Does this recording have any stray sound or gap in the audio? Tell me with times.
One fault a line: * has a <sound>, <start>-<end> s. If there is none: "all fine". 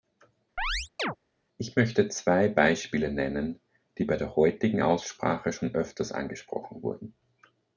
* has a chirp, 0.6-1.2 s